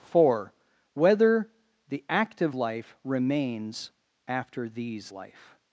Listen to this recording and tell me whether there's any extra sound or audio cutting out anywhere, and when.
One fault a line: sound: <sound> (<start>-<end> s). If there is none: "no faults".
no faults